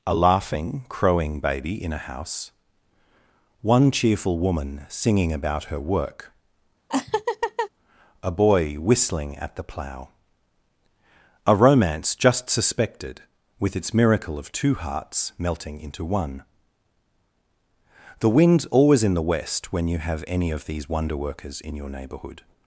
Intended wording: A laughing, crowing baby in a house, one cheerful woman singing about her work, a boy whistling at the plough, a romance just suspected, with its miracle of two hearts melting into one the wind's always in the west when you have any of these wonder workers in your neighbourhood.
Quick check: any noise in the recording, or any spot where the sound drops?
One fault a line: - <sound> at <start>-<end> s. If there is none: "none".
- laugh at 6.9-7.7 s